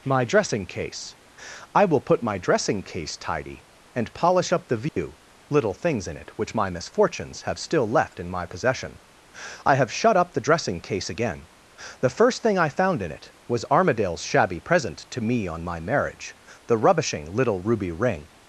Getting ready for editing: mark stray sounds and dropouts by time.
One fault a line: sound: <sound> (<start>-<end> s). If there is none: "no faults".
sound: dropout (4.9-5.0 s)